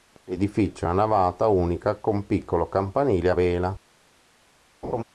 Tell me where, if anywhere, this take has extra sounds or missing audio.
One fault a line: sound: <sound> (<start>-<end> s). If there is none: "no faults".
sound: laugh (4.8-5.0 s)